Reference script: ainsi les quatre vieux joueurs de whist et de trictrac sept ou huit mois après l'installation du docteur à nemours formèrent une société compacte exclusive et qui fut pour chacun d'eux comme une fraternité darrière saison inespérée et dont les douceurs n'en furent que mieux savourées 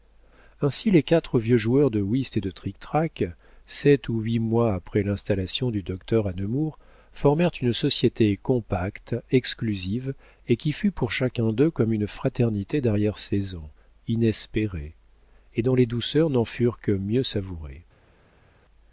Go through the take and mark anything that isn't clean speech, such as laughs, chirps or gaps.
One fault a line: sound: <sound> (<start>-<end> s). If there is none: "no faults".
no faults